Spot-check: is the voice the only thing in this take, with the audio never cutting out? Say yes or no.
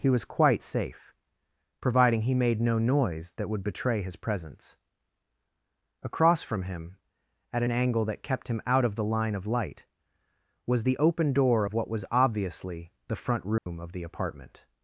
no